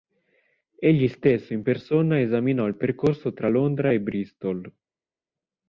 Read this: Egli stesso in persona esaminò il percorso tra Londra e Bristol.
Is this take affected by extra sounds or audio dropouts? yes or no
no